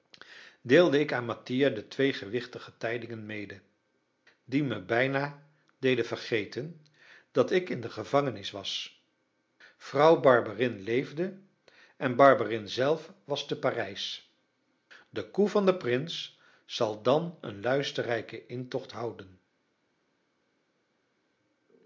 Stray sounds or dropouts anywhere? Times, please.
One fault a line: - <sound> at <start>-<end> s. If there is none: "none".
none